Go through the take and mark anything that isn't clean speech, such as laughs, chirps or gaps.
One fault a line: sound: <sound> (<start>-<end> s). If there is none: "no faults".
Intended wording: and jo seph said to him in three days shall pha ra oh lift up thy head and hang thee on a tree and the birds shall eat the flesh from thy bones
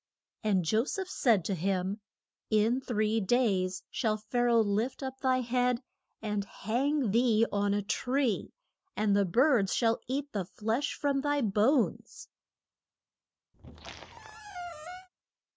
sound: squeak (13.5-15.1 s)